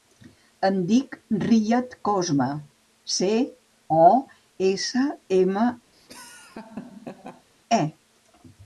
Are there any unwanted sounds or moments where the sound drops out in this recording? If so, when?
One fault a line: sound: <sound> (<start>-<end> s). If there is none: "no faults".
sound: laugh (5.9-7.5 s)